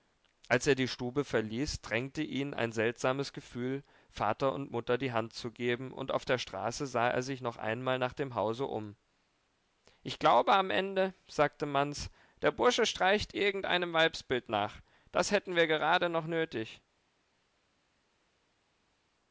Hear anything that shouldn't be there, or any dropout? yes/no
no